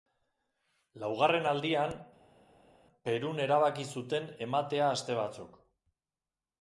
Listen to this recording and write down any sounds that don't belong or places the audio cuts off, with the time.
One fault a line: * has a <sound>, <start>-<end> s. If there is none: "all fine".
all fine